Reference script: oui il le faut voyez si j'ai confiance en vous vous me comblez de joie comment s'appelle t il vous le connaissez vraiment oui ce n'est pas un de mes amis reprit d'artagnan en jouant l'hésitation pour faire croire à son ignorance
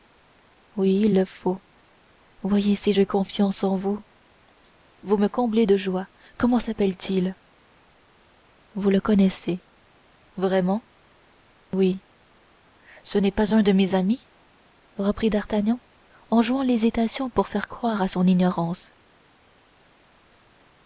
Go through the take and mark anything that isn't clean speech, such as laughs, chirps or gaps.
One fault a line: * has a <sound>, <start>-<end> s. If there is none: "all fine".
all fine